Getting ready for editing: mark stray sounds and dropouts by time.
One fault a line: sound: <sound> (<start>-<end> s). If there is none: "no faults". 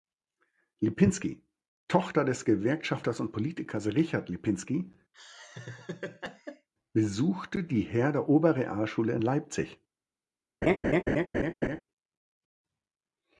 sound: laugh (5.1-6.7 s)
sound: laugh (10.6-11.8 s)